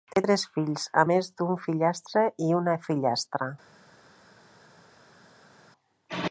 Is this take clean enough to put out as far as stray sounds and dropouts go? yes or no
yes